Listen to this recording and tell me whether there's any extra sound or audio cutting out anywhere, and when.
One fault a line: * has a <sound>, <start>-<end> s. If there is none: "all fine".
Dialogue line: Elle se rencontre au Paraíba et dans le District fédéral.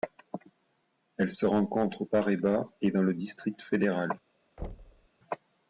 * has a thud, 4.6-5.1 s